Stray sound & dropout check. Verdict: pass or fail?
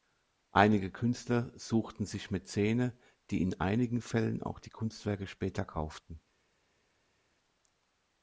pass